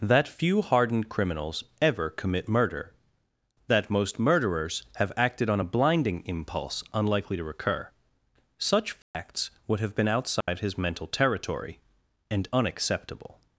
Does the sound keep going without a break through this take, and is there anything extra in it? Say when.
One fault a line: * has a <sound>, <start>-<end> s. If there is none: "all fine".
* has a dropout, 9.0-9.1 s
* has a dropout, 10.4-10.5 s